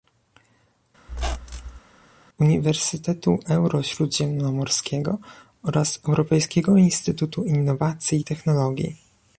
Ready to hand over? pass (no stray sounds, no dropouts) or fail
fail